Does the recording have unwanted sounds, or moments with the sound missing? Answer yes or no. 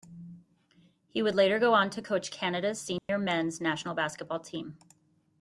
yes